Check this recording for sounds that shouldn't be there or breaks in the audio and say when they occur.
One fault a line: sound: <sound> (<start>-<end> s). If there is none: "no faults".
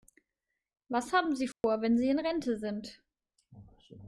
sound: dropout (1.5-1.6 s)